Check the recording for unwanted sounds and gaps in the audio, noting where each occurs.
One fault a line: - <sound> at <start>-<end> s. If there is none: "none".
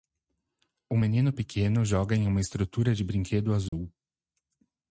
- dropout at 3.7-3.7 s